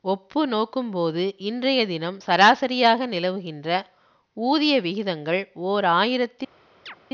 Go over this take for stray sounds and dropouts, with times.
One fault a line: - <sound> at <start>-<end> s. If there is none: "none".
- chirp at 6.9-7.0 s